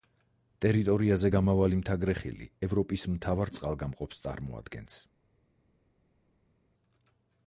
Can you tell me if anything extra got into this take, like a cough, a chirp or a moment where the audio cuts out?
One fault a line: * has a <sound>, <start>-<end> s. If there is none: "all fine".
all fine